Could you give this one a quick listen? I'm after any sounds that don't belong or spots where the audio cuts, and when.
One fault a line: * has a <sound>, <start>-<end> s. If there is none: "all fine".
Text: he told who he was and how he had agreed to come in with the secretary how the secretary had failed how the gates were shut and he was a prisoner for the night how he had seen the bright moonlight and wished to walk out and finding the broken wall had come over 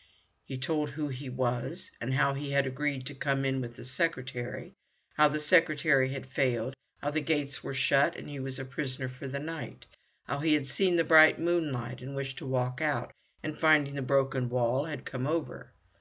all fine